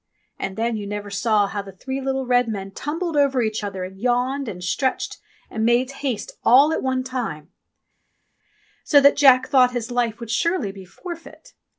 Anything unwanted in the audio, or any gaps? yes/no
no